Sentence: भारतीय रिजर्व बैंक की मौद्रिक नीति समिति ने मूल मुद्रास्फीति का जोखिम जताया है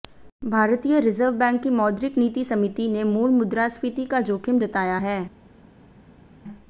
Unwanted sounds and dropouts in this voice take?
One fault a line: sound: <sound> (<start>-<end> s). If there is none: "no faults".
no faults